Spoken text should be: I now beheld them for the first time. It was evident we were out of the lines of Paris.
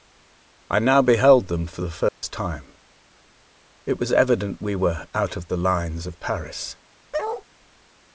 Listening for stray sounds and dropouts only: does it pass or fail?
fail